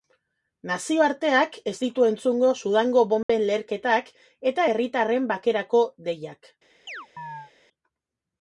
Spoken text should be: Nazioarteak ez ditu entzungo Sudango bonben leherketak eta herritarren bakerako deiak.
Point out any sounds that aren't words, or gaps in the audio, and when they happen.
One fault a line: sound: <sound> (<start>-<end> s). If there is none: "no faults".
sound: dropout (3.2-3.3 s)
sound: chirp (6.9-7.5 s)